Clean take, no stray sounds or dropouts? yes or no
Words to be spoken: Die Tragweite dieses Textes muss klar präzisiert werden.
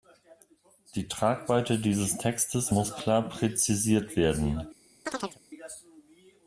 no